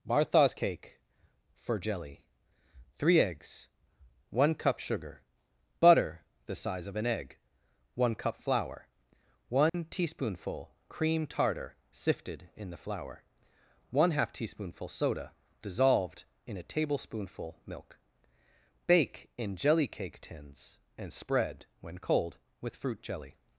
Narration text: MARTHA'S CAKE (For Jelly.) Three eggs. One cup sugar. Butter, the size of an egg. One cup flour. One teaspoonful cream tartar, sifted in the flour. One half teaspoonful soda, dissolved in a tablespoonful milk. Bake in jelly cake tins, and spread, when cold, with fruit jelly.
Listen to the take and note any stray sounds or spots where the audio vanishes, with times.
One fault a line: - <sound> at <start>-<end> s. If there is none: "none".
- dropout at 9.7-9.7 s